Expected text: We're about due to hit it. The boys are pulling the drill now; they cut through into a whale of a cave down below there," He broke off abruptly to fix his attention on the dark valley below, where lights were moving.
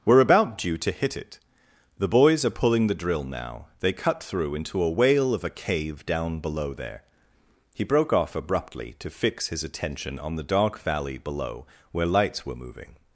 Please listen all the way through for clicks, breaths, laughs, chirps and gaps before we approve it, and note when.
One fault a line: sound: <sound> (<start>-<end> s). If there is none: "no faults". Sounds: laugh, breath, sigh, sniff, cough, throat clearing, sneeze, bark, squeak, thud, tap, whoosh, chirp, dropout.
no faults